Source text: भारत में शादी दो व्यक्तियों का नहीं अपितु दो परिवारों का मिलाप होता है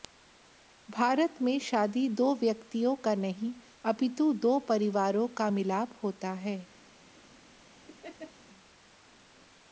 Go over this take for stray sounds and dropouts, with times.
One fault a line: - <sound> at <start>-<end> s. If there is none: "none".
- laugh at 7.9-8.3 s